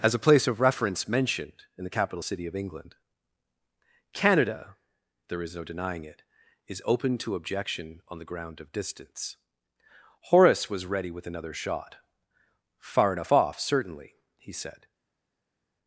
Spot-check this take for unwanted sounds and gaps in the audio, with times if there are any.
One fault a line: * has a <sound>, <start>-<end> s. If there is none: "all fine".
all fine